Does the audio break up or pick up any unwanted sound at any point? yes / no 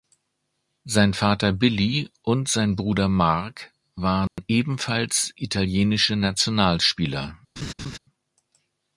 yes